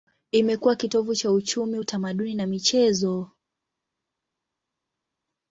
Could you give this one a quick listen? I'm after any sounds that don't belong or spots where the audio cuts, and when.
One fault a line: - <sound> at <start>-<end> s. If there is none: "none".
none